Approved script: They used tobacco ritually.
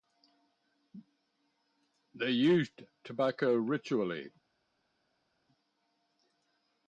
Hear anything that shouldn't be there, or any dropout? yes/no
no